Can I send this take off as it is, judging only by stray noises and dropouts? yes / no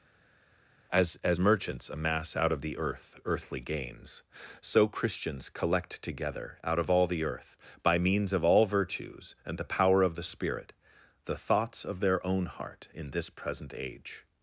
yes